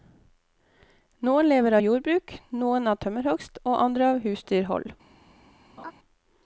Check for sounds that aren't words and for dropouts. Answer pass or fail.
fail